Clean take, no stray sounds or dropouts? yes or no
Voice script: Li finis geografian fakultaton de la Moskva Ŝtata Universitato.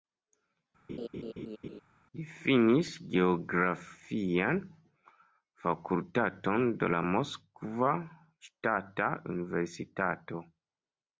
no